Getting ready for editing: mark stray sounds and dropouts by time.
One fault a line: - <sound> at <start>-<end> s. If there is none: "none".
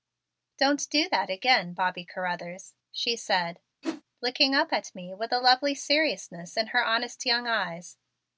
- whoosh at 3.8-4.0 s